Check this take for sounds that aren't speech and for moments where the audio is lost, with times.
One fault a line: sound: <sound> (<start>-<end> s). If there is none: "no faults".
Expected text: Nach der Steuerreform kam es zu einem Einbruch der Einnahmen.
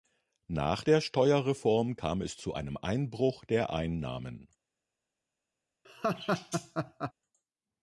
sound: laugh (5.8-7.1 s)